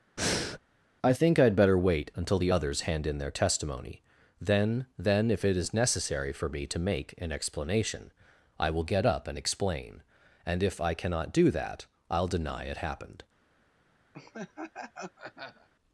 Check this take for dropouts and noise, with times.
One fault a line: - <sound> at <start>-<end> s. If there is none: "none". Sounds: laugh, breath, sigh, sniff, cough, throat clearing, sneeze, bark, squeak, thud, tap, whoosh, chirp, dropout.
- breath at 0.2-0.6 s
- laugh at 14.1-15.7 s